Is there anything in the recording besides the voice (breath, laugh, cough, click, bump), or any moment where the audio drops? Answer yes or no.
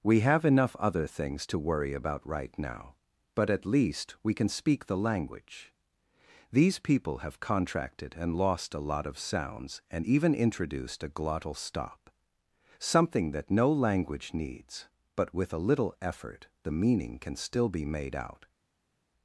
no